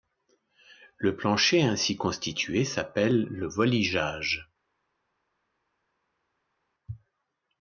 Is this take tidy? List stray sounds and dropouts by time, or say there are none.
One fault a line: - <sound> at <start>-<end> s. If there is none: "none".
none